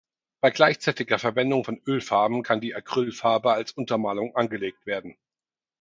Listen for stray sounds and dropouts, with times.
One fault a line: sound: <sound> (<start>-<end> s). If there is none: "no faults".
no faults